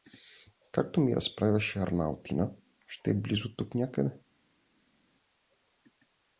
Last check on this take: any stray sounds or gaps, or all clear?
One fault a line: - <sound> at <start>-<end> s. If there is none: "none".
none